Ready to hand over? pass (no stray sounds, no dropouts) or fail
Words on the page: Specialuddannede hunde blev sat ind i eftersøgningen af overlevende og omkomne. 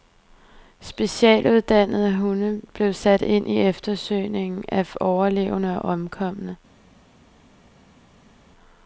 pass